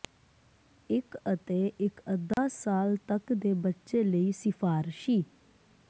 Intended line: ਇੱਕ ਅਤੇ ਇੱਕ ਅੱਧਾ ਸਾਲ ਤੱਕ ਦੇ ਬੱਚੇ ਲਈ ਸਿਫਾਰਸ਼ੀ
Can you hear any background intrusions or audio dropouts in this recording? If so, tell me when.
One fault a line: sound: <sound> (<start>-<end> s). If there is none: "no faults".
sound: dropout (2.3-2.4 s)